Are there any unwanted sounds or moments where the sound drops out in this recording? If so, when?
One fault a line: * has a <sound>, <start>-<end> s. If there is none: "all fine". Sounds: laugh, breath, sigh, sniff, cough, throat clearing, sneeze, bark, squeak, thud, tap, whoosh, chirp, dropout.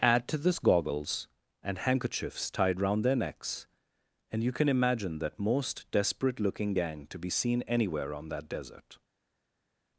all fine